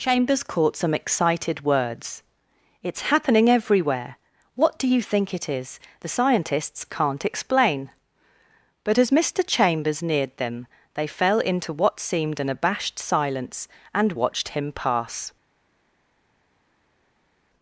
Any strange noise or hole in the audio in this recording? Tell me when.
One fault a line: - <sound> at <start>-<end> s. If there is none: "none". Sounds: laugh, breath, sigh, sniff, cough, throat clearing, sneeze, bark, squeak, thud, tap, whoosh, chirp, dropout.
none